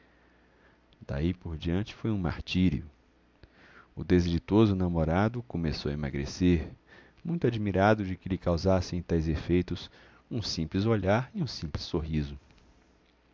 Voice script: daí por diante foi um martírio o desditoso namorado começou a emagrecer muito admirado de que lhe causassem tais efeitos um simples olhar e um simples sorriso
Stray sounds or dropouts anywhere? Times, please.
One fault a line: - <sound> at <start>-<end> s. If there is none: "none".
none